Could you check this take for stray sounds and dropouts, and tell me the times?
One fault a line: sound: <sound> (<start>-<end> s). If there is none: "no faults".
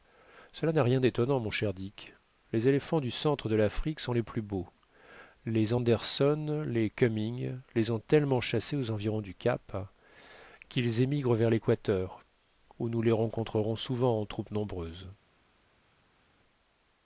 no faults